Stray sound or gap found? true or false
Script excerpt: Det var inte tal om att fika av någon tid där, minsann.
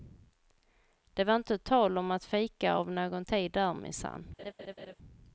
true